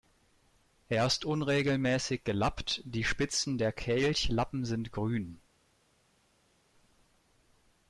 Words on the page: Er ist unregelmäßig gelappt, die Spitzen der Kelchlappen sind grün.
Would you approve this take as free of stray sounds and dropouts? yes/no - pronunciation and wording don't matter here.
yes